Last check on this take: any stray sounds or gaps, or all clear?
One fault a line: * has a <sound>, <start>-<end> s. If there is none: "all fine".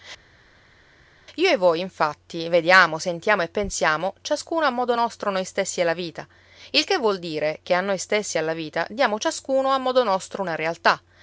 all fine